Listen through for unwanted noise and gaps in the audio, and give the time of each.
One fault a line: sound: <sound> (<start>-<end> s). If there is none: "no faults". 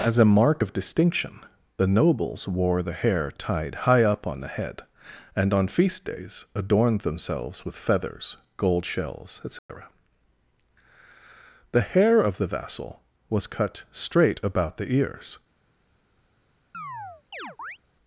sound: dropout (9.6-9.7 s)
sound: chirp (16.7-17.8 s)